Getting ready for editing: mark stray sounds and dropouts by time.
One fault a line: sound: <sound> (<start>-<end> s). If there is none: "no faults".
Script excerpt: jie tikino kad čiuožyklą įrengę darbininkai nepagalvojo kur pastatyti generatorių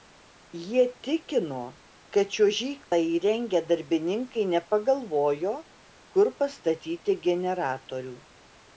sound: dropout (2.8-2.9 s)